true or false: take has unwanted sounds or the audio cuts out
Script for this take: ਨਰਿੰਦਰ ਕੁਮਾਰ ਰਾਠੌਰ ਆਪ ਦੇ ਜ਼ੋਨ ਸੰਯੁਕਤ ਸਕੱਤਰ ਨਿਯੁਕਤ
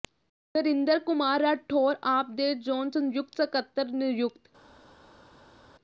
false